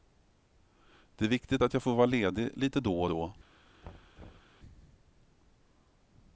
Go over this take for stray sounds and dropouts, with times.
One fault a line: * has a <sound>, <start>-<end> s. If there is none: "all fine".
* has a thud, 3.8-4.6 s